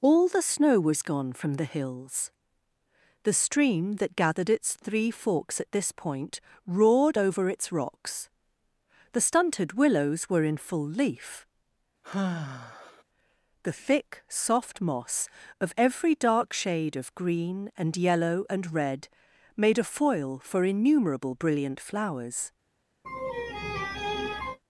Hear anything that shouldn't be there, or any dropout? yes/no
yes